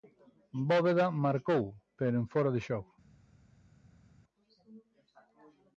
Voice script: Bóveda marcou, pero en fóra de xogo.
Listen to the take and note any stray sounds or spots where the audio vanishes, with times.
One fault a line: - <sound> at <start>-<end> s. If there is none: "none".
none